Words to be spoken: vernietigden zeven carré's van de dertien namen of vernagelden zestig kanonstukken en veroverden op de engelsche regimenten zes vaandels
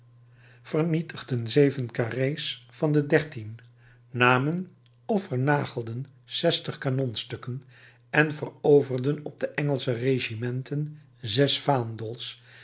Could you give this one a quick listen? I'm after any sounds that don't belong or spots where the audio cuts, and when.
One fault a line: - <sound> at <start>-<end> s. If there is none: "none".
none